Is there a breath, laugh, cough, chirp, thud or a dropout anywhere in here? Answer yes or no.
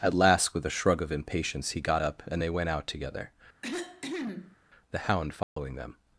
yes